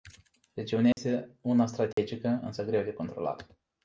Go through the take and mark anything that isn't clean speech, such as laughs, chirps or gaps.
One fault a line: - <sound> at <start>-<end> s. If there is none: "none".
- dropout at 0.9-1.0 s
- dropout at 1.9-2.0 s